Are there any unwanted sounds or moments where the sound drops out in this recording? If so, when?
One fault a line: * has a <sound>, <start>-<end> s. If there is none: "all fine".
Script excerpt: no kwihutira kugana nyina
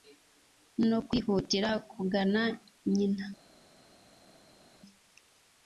all fine